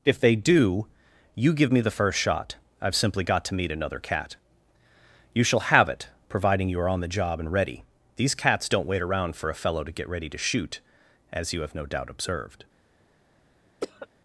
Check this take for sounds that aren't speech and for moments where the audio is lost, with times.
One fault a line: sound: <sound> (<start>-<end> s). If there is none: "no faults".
sound: cough (13.8-14.1 s)